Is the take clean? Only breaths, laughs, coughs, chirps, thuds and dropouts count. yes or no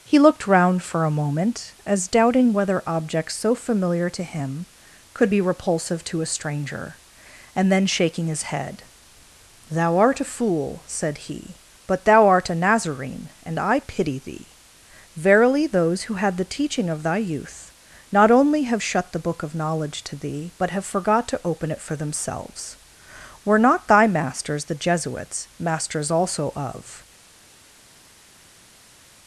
yes